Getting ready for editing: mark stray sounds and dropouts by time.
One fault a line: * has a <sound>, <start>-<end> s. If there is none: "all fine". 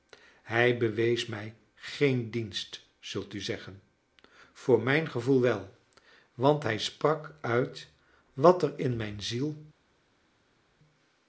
all fine